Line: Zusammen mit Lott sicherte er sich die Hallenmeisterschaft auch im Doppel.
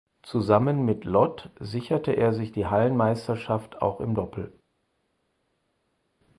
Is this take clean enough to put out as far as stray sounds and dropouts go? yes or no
yes